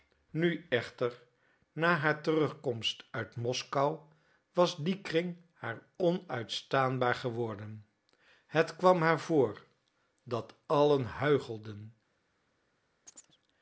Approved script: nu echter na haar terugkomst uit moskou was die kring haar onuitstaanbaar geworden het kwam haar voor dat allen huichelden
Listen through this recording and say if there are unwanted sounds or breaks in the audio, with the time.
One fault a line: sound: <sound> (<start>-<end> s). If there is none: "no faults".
sound: chirp (13.1-13.4 s)